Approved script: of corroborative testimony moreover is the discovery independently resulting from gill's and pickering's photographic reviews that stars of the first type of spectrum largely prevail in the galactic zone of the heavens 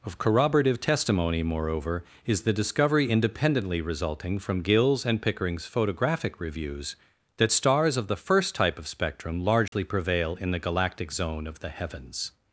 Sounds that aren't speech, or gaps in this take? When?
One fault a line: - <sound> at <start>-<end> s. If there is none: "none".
- dropout at 9.7-9.7 s